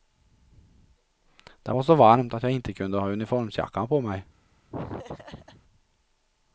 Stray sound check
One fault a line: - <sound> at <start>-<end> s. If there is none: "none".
- laugh at 4.7-5.6 s